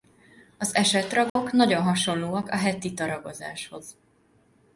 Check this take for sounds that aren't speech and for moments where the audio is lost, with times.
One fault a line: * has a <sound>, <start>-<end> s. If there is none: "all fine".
* has a dropout, 1.3-1.4 s